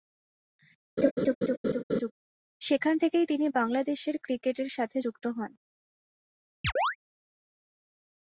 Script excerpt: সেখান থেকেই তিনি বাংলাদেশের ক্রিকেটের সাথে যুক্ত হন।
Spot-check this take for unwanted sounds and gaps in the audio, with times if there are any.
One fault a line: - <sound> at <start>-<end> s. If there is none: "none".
- laugh at 1.0-2.1 s
- chirp at 6.6-7.0 s